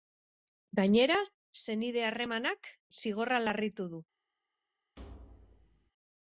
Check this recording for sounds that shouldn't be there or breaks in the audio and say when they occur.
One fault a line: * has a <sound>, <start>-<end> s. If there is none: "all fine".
* has a thud, 5.0-5.9 s